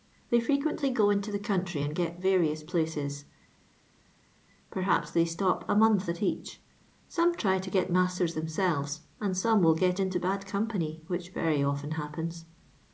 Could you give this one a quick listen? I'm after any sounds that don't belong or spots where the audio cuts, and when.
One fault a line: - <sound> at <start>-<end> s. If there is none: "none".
none